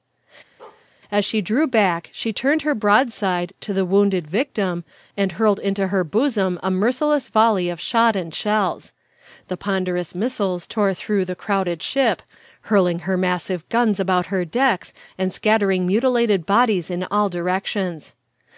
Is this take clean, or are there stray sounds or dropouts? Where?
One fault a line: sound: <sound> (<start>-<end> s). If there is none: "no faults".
sound: bark (0.6-0.9 s)